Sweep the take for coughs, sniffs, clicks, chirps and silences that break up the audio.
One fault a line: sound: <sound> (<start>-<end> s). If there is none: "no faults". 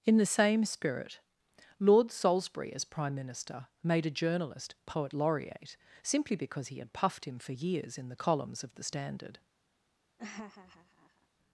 sound: laugh (10.2-11.3 s)